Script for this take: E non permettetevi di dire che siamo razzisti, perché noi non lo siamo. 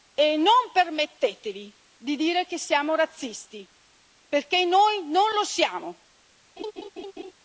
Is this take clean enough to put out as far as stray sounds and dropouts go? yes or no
no